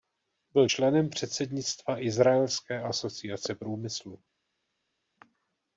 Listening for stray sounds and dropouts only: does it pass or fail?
pass